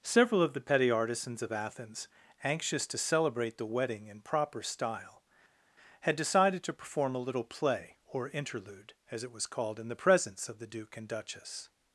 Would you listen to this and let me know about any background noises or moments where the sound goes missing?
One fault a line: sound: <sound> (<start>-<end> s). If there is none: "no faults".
no faults